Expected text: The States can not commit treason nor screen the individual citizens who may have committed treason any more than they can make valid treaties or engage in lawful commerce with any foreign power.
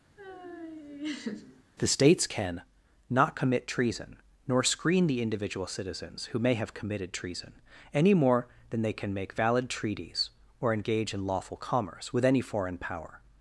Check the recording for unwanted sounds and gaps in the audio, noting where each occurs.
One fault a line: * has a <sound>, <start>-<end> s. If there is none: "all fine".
* has a laugh, 0.2-1.6 s